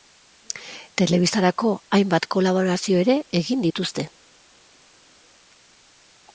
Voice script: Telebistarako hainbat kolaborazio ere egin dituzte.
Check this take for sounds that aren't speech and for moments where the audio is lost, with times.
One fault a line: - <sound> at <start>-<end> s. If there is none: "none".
none